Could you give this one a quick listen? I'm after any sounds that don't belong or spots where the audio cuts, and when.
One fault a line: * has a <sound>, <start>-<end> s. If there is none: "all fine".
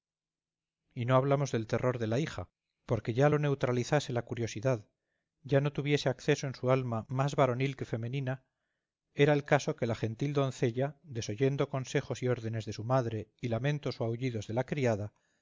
all fine